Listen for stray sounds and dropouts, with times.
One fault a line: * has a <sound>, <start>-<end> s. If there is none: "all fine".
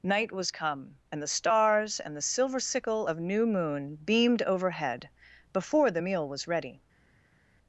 all fine